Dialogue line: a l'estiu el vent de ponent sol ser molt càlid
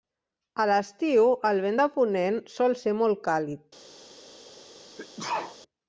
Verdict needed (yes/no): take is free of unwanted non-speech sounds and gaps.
no